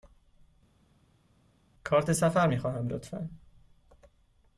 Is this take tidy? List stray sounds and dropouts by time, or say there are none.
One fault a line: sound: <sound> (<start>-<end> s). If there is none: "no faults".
no faults